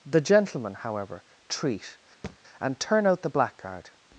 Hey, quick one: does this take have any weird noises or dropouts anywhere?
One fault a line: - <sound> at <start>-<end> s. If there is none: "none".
- thud at 2.2-2.4 s